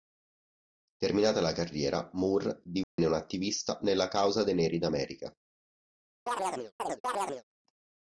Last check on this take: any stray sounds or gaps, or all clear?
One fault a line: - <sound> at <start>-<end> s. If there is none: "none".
- dropout at 2.8-3.0 s
- chirp at 6.3-7.4 s